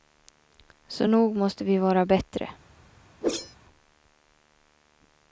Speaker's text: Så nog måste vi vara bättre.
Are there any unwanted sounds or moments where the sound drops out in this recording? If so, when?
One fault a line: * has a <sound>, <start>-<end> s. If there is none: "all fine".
* has a whoosh, 3.2-3.6 s